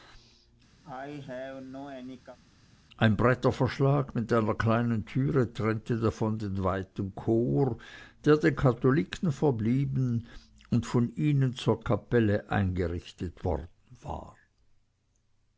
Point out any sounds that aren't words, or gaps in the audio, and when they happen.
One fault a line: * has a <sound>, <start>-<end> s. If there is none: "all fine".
* has a cough, 0.8-2.4 s